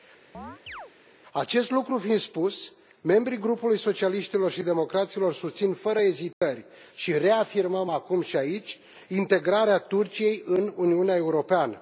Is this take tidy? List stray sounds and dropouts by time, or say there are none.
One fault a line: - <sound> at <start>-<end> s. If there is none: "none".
- chirp at 0.3-0.9 s
- dropout at 6.3-6.4 s